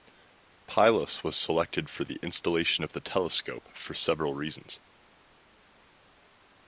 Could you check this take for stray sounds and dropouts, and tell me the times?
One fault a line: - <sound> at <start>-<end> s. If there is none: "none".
none